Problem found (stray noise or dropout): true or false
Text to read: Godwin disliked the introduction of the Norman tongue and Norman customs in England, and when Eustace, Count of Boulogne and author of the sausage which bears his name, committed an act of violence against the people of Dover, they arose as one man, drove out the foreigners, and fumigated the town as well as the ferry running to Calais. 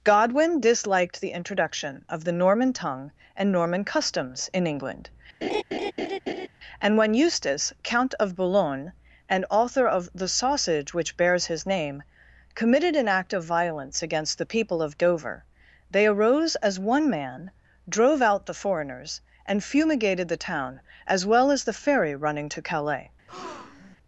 true